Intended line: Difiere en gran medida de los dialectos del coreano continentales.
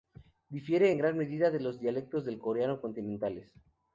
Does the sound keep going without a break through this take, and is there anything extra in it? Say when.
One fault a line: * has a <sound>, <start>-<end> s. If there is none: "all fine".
all fine